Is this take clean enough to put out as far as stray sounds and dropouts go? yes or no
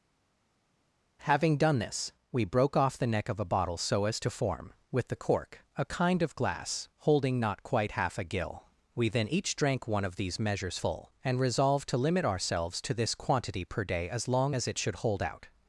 yes